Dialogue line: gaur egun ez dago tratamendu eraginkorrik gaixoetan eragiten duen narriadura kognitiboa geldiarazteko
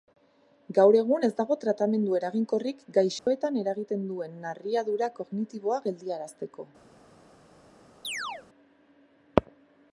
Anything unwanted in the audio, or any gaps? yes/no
yes